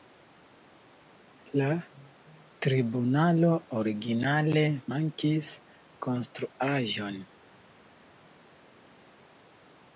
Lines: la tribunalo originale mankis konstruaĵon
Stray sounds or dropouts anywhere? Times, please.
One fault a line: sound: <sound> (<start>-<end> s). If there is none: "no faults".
no faults